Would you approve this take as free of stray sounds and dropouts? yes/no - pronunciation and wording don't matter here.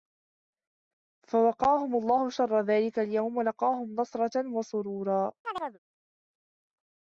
no